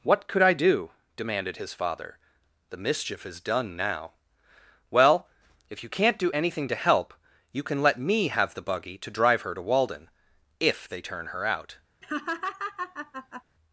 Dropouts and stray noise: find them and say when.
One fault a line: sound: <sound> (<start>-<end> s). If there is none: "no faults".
sound: laugh (12.0-13.4 s)